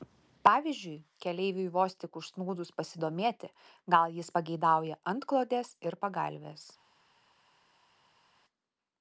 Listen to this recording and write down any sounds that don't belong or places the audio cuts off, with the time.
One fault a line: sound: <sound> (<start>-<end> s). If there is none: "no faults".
no faults